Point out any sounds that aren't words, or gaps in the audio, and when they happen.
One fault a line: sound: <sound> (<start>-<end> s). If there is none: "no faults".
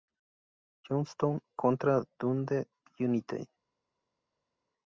no faults